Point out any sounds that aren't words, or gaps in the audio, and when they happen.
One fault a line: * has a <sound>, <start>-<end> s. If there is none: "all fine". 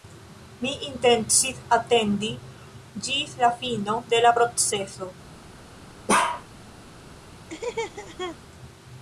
* has a bark, 6.1-6.4 s
* has a laugh, 7.5-8.4 s